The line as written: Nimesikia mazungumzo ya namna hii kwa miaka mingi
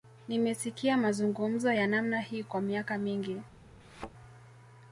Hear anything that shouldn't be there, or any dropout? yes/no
yes